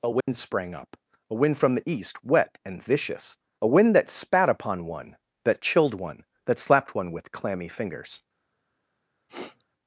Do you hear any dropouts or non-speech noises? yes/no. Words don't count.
yes